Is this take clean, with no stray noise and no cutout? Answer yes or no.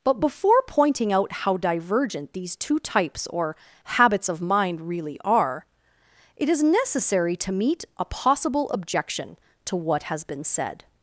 yes